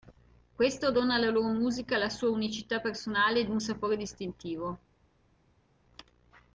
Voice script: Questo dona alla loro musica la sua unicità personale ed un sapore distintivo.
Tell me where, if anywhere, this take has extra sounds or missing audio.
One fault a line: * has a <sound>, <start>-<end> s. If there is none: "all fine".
all fine